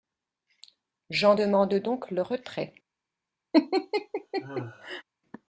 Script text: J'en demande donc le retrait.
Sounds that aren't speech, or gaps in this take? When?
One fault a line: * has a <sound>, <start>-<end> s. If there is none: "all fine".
* has a laugh, 3.5-5.0 s